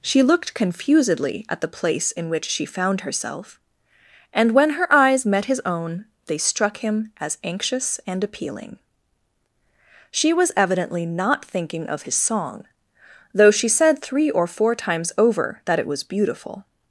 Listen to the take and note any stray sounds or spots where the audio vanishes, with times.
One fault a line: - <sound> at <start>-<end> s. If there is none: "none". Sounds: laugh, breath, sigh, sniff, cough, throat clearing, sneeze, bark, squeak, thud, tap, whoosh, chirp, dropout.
none